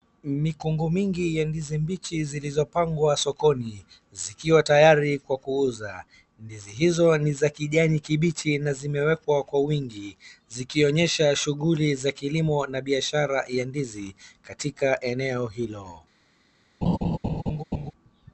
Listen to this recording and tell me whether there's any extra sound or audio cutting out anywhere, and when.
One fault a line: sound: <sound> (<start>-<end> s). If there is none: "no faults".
sound: laugh (16.8-17.9 s)